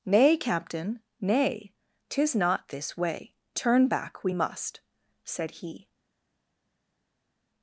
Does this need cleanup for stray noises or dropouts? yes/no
no